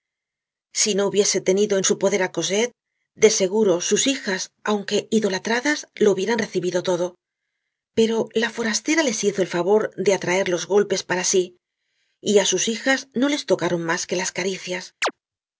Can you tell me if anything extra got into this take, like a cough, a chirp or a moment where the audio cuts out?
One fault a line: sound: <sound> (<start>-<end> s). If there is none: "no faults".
sound: chirp (15.0-15.1 s)